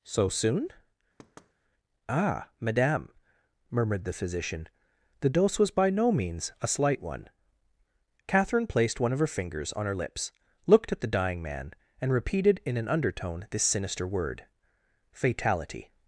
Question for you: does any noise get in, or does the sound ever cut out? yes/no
yes